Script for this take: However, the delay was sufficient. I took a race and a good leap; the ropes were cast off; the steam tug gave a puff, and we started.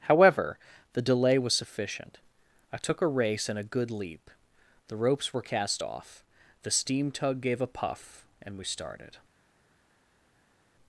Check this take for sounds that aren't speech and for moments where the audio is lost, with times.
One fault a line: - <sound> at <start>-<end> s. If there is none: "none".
none